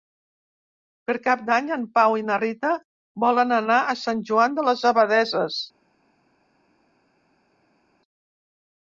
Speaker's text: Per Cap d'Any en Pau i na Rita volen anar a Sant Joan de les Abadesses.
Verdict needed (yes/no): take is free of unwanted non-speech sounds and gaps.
yes